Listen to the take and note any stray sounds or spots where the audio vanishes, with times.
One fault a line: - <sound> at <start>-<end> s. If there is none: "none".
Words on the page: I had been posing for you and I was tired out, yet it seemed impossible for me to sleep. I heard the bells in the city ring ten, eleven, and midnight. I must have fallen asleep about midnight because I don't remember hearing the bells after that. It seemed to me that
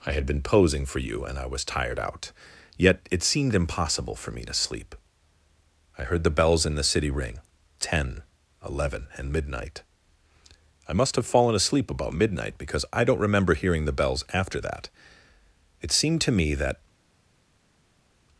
none